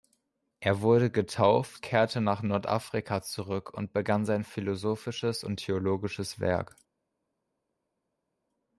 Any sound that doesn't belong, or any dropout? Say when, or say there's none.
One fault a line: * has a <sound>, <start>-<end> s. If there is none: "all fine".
all fine